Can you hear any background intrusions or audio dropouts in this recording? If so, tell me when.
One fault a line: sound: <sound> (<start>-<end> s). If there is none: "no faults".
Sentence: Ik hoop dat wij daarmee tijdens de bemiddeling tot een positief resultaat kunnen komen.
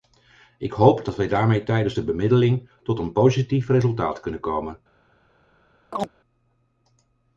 sound: chirp (5.9-6.1 s)